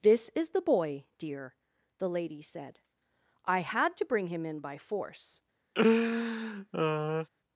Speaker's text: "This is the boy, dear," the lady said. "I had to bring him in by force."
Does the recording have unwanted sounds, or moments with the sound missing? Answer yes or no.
yes